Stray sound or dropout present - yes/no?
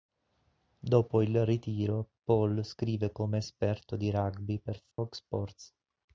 yes